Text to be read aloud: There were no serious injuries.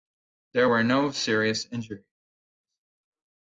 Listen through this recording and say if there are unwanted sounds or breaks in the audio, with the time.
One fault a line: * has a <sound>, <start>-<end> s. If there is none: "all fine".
all fine